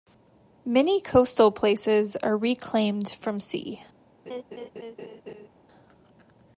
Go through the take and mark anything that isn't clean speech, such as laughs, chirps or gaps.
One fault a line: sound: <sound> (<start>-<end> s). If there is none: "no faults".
sound: laugh (4.3-5.5 s)